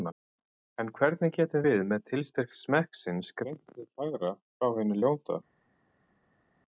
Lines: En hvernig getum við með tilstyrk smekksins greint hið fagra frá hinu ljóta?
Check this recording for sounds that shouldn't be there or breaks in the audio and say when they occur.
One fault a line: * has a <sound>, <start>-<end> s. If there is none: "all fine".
all fine